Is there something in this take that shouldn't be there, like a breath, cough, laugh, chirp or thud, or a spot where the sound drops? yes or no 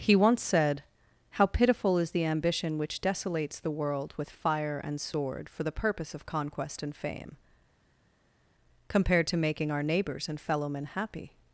no